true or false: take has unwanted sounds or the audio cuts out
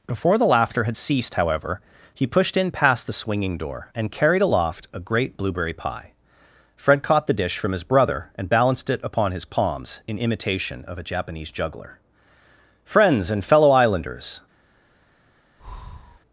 true